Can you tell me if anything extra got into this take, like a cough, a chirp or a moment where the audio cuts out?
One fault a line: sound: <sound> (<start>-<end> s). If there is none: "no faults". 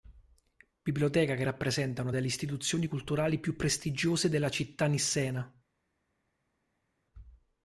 no faults